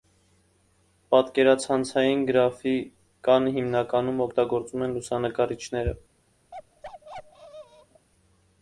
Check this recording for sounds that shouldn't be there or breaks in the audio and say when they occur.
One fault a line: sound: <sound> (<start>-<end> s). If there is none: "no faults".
sound: bark (6.5-8.1 s)